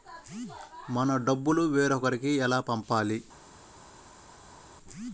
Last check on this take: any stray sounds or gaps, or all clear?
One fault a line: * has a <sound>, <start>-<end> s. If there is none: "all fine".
all fine